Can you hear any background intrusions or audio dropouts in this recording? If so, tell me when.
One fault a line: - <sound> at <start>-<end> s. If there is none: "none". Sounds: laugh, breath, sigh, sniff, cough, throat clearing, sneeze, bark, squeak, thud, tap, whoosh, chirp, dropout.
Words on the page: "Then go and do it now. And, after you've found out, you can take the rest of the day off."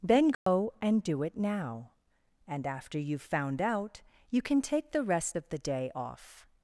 - dropout at 0.3-0.5 s